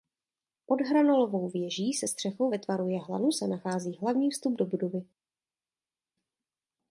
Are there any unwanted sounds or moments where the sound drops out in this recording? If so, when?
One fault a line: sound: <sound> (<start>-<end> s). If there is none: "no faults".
no faults